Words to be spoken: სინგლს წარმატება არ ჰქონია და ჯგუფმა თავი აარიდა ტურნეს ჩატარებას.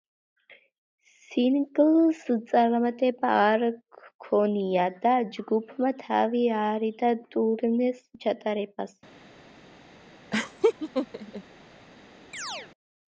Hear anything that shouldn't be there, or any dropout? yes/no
yes